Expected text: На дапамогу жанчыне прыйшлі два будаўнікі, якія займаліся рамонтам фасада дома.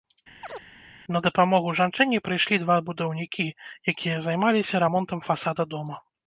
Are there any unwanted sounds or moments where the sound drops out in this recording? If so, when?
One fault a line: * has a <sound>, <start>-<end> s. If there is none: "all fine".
* has a chirp, 0.4-0.7 s